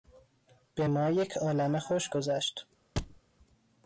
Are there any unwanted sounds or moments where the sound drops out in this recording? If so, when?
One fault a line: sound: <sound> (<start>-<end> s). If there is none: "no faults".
sound: thud (3.0-3.2 s)